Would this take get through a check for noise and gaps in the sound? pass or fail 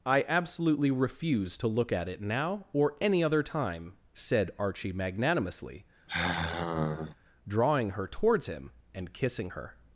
fail